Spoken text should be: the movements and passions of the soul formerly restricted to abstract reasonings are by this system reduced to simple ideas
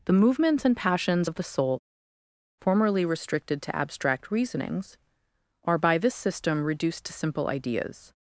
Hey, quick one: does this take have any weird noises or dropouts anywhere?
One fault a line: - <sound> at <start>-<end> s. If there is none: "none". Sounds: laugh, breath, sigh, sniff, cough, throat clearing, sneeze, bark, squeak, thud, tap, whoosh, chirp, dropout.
none